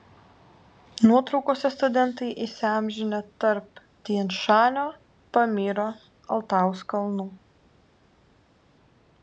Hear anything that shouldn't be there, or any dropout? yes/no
no